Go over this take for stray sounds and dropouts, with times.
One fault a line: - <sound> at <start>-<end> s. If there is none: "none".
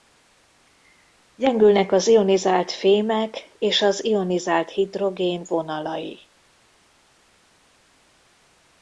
none